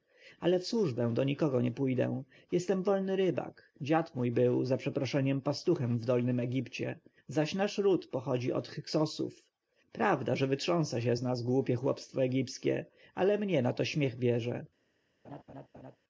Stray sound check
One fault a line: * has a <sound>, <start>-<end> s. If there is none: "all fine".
* has a laugh, 15.2-16.0 s